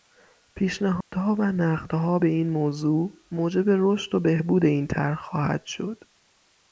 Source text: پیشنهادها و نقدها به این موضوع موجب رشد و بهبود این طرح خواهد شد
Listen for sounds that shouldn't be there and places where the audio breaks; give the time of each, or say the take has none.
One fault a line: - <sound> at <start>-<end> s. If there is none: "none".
- dropout at 1.0-1.1 s